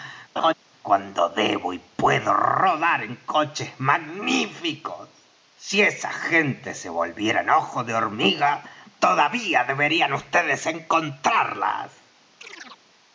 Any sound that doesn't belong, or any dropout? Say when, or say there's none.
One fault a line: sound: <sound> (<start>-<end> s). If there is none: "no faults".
sound: laugh (0.4-0.5 s)
sound: chirp (12.4-12.8 s)